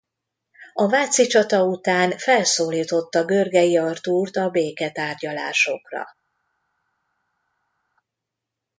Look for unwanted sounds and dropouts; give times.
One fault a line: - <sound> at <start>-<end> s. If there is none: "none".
none